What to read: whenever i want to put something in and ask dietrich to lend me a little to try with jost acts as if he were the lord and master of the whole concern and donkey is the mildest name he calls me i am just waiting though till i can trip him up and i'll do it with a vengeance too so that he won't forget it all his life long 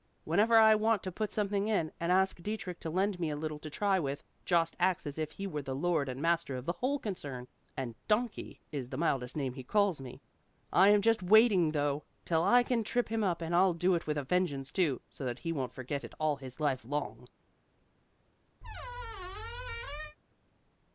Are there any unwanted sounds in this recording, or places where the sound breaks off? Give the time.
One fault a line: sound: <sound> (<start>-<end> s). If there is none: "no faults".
sound: squeak (18.6-20.2 s)